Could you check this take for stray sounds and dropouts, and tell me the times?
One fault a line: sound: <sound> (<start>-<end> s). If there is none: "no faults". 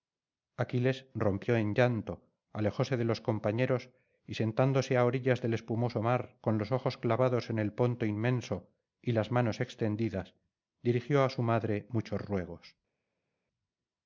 no faults